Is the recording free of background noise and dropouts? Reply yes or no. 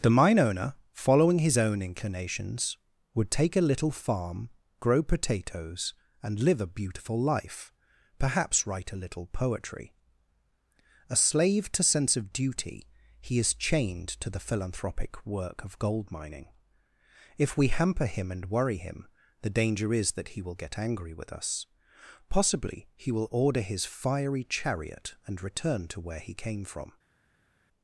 yes